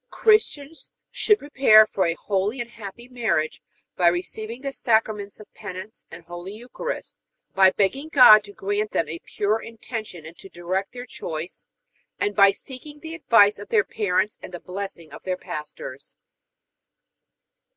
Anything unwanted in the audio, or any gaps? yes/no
no